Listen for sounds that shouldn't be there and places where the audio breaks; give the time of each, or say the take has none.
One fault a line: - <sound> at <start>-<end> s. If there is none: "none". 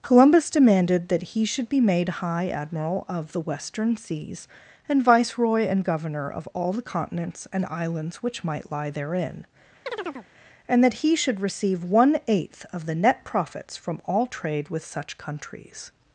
- chirp at 9.9-10.3 s